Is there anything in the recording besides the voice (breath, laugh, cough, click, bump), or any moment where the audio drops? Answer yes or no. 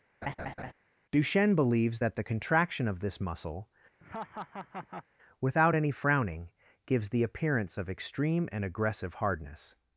yes